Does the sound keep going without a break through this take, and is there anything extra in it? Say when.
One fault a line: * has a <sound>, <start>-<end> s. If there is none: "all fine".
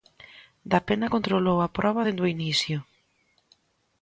all fine